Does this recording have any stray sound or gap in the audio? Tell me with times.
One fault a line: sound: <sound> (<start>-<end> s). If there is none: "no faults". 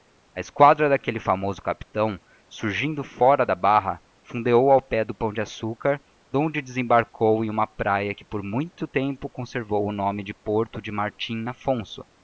no faults